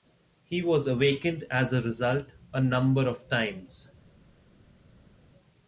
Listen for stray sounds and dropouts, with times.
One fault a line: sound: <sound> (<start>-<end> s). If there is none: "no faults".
no faults